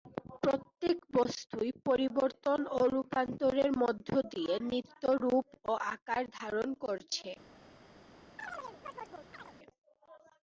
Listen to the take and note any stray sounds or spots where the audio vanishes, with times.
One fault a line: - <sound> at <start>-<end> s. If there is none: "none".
- chirp at 8.4-9.5 s